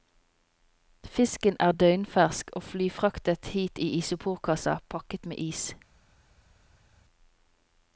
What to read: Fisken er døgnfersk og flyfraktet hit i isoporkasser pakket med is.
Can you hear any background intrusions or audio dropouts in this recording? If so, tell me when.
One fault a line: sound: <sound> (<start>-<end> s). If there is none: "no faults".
no faults